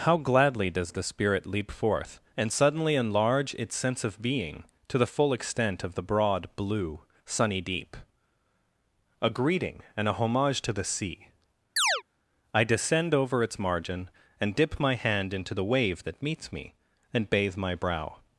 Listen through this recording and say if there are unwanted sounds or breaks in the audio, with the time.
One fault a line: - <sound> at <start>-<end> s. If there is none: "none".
- chirp at 11.8-12.0 s